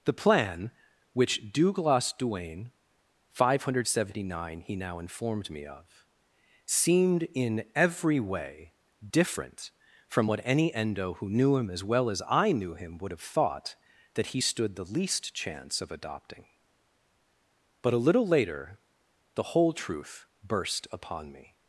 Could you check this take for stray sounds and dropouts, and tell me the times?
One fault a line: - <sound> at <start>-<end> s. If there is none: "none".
none